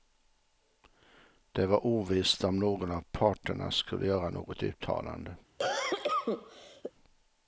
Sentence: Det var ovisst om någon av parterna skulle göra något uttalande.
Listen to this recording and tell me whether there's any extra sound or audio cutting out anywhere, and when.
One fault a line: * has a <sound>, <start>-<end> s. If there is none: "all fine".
* has a cough, 5.6-6.9 s